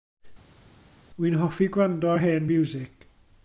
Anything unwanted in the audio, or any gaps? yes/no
no